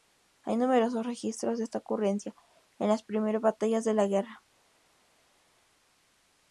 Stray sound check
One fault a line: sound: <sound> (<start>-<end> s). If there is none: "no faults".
no faults